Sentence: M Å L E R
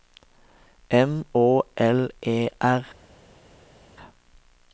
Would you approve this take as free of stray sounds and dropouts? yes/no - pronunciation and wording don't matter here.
yes